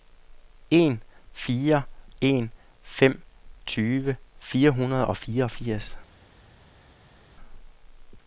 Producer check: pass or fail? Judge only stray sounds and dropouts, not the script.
pass